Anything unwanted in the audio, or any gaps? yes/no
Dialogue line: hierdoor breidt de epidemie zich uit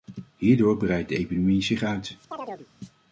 yes